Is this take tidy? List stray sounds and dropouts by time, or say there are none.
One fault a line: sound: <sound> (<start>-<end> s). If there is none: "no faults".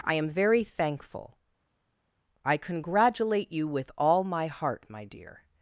no faults